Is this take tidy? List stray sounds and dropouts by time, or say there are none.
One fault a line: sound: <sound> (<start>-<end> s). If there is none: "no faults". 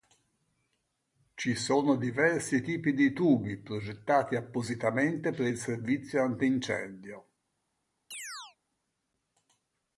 sound: chirp (8.1-8.6 s)